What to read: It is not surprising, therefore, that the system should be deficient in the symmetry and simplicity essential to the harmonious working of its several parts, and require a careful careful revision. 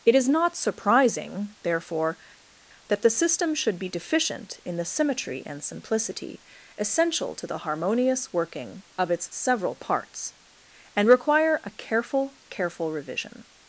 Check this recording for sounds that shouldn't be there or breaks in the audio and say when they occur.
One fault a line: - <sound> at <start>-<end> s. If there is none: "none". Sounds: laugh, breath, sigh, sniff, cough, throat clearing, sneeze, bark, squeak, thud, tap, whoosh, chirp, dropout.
none